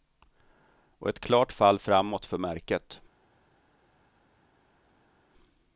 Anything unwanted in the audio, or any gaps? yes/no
no